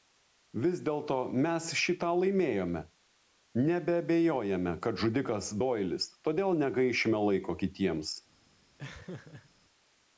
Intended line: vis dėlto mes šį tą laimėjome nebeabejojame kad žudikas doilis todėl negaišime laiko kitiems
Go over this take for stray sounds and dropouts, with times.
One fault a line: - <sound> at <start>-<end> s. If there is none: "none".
- laugh at 8.8-9.5 s